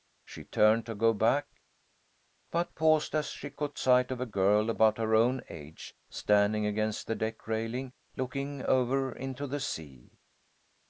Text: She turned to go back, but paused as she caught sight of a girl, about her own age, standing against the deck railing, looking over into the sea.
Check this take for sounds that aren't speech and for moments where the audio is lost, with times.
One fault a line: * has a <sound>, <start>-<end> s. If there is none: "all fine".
all fine